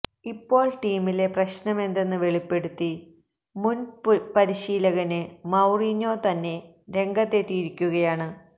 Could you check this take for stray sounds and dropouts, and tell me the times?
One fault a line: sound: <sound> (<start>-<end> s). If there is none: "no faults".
no faults